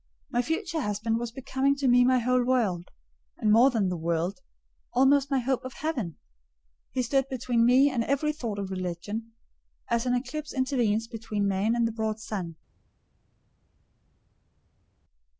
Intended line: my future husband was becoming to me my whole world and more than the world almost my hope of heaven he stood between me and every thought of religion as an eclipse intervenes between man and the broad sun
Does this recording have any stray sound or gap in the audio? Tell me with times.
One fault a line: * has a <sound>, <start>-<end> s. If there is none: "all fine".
all fine